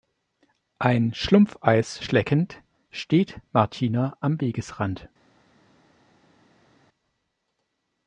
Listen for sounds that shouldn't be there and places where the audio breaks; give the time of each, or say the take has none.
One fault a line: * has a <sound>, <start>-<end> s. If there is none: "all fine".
all fine